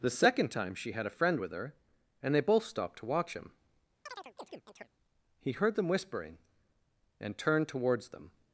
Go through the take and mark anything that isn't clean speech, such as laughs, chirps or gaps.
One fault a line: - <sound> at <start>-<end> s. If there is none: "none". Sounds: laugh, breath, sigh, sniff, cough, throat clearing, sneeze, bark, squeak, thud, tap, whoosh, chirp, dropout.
- chirp at 4.1-4.9 s